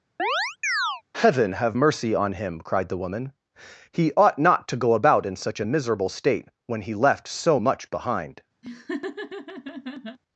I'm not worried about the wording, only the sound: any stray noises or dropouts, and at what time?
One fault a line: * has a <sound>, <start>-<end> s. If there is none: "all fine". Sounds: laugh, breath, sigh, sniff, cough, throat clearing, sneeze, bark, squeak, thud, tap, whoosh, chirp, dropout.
* has a chirp, 0.2-1.0 s
* has a laugh, 8.6-10.2 s